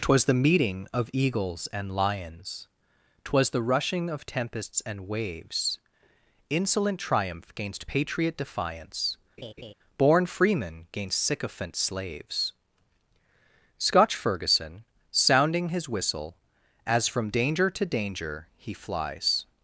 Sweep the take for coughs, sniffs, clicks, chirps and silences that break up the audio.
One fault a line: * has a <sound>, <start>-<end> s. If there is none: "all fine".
* has a laugh, 9.4-9.7 s